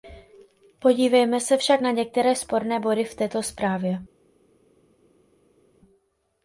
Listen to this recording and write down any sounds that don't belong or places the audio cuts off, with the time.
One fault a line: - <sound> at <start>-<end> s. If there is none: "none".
none